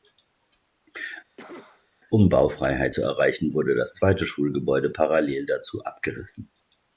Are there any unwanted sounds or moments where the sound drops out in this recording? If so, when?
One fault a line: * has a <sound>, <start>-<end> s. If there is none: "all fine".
* has a cough, 1.4-1.9 s